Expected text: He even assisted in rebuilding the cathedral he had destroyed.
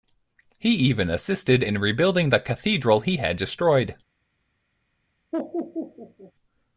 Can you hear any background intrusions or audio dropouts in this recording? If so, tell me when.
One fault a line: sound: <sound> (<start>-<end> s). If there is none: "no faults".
sound: laugh (5.3-6.3 s)